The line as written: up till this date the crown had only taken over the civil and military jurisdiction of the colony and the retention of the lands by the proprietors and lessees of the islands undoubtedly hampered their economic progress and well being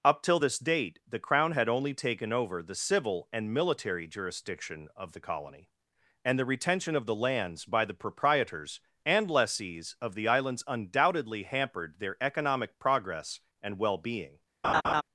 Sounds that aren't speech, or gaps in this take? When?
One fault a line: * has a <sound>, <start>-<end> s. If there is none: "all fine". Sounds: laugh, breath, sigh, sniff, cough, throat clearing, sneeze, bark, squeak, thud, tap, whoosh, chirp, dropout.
* has a laugh, 14.6-15.0 s